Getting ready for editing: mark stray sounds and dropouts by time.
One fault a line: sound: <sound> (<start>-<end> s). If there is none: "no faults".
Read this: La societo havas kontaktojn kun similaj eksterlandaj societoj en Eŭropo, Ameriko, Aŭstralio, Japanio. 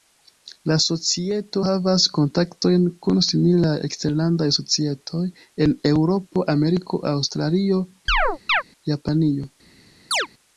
sound: chirp (8.1-8.6 s)
sound: chirp (10.1-10.3 s)